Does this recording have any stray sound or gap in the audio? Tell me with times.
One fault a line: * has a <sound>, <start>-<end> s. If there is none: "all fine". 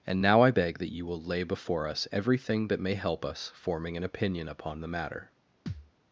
* has a thud, 5.7-5.9 s